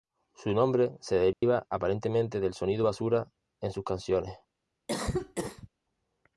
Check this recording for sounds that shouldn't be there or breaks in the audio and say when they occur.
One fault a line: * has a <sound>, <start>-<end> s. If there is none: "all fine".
* has a dropout, 1.3-1.4 s
* has a cough, 4.9-5.7 s